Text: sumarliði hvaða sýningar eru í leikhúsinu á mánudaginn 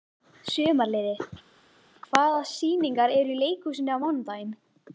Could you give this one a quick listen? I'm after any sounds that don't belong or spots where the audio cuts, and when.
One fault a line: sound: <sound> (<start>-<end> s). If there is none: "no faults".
no faults